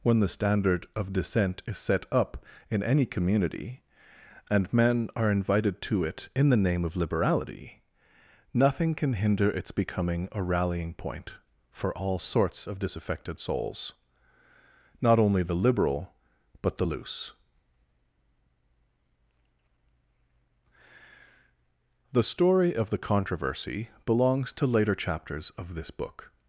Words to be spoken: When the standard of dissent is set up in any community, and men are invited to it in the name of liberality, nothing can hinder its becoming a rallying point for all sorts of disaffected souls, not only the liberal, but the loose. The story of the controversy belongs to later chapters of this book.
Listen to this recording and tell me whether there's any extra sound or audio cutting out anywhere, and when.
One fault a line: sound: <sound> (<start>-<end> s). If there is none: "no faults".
no faults